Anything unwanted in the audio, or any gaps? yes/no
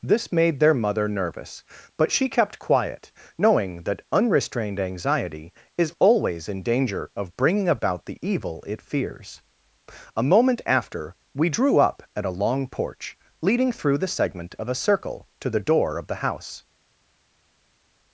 no